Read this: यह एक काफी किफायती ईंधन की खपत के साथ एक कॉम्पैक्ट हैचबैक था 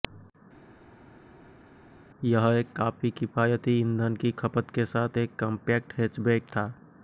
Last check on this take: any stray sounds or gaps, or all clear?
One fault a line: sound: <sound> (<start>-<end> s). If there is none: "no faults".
no faults